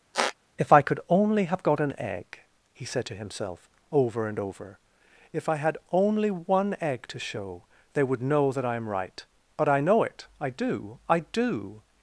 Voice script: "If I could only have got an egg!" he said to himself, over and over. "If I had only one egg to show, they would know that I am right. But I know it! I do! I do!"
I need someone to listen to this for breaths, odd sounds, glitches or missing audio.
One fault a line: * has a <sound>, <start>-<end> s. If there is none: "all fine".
* has a squeak, 0.1-0.3 s